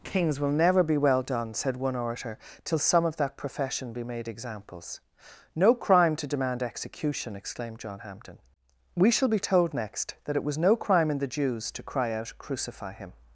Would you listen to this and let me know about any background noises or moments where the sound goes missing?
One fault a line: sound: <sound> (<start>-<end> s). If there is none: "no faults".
no faults